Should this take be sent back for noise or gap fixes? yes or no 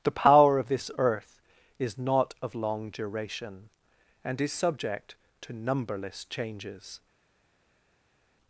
no